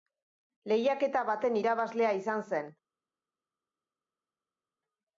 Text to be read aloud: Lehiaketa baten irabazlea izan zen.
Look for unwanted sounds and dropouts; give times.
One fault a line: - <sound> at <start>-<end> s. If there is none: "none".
none